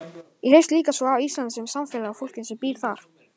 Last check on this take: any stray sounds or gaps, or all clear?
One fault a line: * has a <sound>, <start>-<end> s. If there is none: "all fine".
all fine